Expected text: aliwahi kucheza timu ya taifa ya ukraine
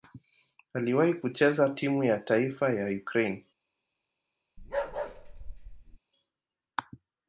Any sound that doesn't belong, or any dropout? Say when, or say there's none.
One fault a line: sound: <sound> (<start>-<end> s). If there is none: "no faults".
sound: bark (4.6-6.0 s)